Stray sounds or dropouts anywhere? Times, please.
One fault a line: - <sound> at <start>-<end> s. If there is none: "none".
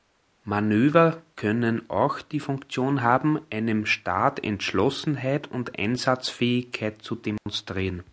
- dropout at 7.4-7.5 s